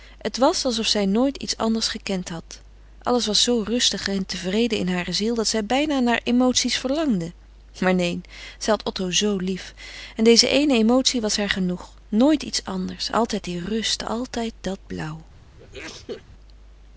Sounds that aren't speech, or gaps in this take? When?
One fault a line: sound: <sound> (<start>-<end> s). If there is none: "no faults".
sound: sneeze (15.6-16.2 s)